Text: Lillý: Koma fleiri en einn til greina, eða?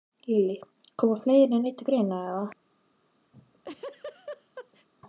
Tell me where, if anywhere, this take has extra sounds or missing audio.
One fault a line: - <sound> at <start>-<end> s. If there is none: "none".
- laugh at 3.3-4.9 s